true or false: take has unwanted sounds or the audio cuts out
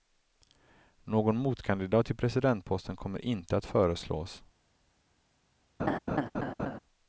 true